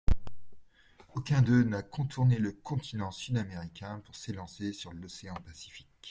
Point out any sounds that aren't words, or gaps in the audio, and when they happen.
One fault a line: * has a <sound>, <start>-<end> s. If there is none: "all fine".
all fine